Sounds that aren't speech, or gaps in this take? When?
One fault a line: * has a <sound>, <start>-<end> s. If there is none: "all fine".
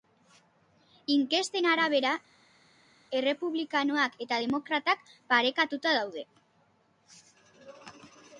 all fine